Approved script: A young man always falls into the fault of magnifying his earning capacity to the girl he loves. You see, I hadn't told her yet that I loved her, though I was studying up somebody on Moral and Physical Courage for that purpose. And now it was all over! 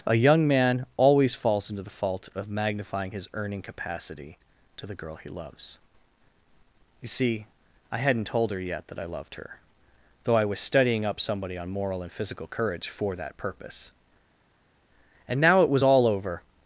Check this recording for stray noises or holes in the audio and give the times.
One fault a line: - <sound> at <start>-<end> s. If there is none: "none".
none